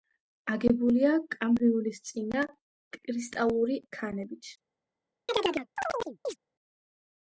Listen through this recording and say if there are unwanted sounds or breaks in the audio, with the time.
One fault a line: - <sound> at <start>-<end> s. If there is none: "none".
- chirp at 5.3-6.4 s